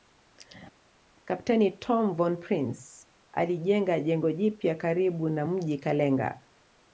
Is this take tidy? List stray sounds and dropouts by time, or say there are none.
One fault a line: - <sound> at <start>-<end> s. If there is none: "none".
none